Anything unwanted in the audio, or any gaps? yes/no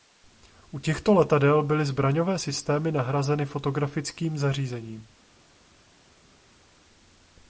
no